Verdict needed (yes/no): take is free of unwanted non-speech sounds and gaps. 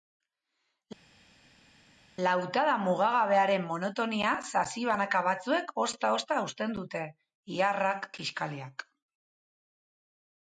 yes